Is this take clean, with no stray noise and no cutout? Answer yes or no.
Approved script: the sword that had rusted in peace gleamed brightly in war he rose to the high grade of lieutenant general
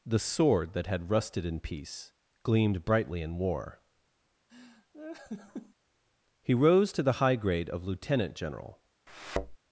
no